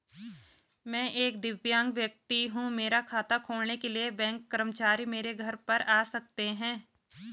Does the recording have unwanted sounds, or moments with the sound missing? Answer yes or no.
no